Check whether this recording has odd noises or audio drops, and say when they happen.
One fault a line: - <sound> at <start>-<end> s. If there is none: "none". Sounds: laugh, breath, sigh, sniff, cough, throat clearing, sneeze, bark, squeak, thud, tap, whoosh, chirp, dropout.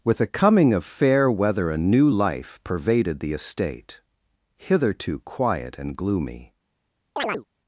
- chirp at 7.2-7.4 s